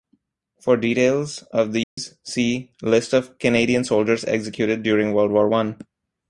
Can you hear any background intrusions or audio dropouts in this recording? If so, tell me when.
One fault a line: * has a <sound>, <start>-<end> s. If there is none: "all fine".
* has a dropout, 1.8-2.0 s